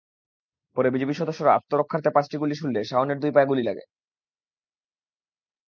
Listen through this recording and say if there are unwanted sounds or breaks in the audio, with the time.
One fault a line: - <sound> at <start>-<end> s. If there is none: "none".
none